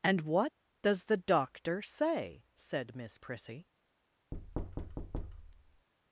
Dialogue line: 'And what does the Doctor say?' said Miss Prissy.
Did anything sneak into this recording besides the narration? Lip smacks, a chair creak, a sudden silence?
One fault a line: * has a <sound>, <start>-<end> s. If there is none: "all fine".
* has a thud, 4.3-5.9 s